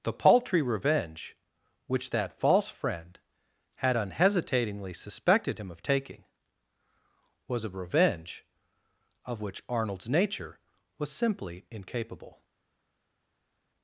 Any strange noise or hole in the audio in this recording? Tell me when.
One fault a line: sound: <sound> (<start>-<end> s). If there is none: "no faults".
no faults